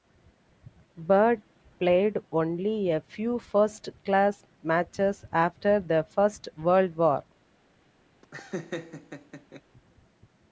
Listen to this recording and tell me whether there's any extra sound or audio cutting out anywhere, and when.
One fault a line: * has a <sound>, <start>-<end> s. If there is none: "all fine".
* has a laugh, 8.2-9.6 s